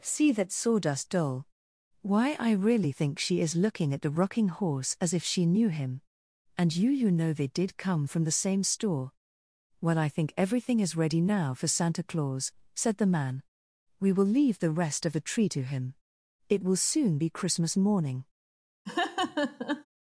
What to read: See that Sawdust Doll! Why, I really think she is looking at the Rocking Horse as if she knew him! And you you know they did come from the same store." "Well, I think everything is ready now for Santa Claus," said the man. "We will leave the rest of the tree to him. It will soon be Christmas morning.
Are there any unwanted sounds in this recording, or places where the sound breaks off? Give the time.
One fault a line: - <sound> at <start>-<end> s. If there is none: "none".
- laugh at 18.9-19.9 s